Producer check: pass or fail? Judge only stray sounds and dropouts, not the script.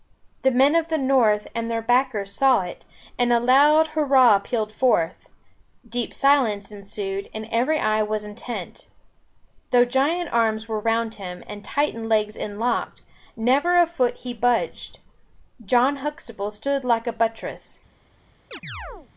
fail